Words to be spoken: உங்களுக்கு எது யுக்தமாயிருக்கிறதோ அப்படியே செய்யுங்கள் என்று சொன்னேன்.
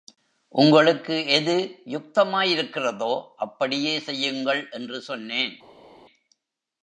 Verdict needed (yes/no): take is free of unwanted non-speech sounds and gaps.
yes